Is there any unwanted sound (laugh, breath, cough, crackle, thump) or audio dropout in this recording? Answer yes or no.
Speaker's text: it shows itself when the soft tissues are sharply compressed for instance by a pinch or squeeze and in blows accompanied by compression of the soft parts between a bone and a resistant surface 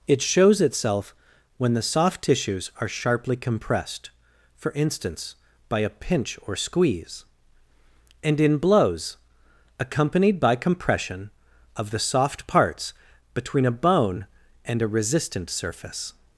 no